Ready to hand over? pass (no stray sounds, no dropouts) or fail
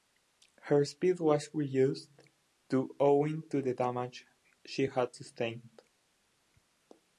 pass